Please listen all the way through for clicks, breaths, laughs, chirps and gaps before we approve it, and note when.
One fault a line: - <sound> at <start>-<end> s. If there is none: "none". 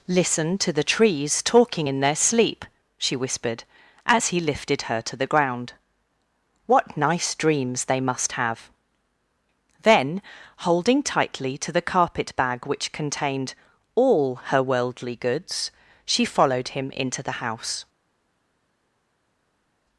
none